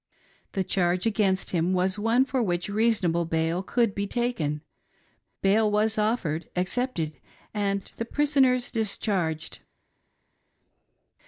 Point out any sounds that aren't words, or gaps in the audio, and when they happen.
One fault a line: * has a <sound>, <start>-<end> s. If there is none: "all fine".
all fine